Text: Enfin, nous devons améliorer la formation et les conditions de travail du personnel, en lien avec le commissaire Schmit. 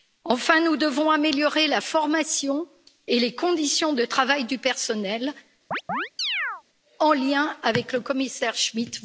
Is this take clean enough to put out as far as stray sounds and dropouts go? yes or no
no